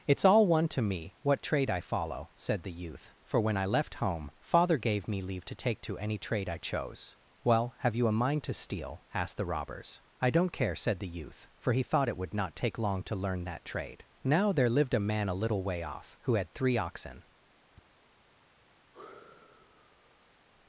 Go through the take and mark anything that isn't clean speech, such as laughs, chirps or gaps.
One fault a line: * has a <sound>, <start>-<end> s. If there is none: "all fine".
* has a tap, 17.7-17.9 s
* has a sigh, 18.9-20.5 s